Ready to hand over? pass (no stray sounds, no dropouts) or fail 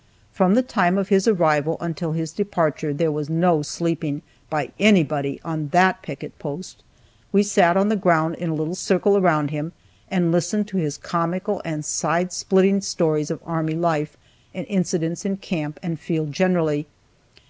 pass